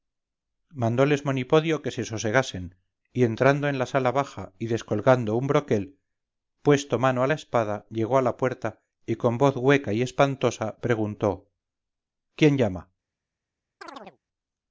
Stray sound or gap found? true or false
true